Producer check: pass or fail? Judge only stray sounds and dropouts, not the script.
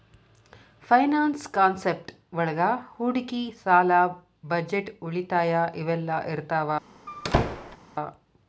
fail